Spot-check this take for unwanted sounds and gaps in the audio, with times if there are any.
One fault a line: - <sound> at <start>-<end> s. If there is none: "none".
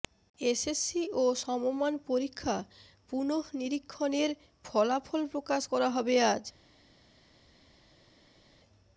none